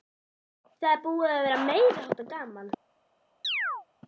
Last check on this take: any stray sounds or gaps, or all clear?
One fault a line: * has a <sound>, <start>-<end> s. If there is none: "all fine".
* has a chirp, 3.4-3.9 s